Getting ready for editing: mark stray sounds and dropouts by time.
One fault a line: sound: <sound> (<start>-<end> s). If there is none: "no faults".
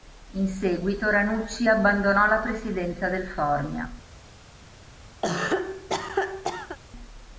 sound: cough (5.2-6.8 s)